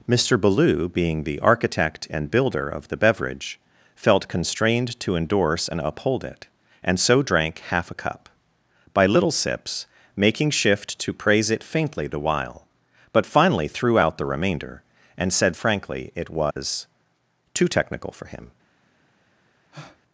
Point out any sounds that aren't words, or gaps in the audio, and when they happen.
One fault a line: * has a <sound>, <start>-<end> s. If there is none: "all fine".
* has a dropout, 16.5-16.6 s
* has a breath, 19.7-20.0 s